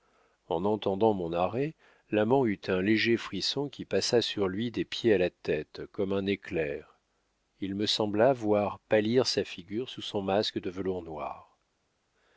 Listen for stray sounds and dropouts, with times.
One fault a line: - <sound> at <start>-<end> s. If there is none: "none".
none